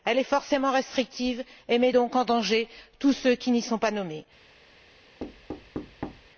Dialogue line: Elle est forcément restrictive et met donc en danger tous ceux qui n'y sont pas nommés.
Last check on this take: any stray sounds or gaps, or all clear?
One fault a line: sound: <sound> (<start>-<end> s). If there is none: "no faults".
sound: thud (5.2-6.3 s)